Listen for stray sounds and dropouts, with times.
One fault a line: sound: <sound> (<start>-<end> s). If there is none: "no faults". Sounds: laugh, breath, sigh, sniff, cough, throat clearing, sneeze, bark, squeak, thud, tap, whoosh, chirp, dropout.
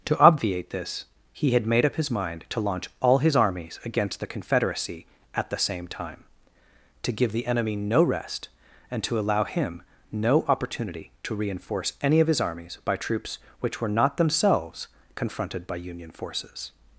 no faults